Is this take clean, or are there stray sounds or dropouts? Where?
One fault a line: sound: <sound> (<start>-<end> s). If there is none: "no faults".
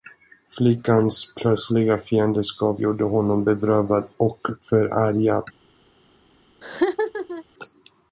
sound: laugh (6.6-7.4 s)